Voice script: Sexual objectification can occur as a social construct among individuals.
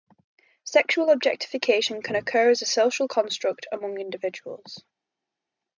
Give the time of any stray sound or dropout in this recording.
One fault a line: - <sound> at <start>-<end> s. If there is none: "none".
none